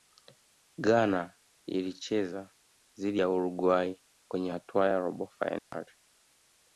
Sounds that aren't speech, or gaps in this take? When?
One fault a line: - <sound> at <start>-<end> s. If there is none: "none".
- dropout at 5.6-5.7 s